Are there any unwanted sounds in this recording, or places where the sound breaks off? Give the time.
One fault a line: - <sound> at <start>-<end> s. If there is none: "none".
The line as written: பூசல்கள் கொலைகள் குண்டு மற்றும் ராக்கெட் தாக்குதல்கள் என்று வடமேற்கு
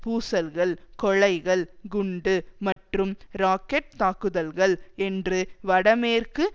- dropout at 2.7-2.8 s